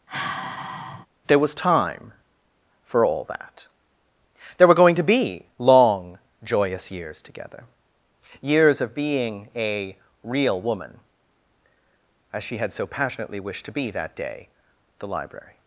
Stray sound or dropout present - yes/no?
yes